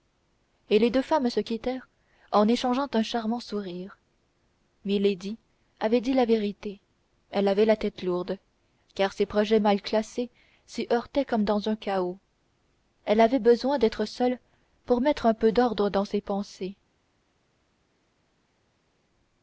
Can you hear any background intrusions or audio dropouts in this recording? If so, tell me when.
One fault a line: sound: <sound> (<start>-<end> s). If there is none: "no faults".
no faults